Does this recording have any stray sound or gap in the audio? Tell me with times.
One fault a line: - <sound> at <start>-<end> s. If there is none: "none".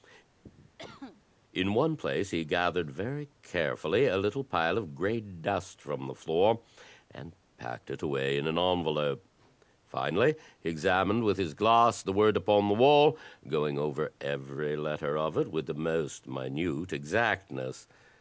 - cough at 0.4-1.2 s